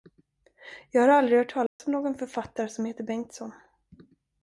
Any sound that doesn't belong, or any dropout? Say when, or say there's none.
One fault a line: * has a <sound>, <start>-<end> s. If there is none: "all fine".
* has a dropout, 1.7-1.8 s